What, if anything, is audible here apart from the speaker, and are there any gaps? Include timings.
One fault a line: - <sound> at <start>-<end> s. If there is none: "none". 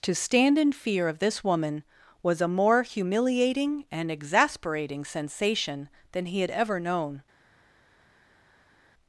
none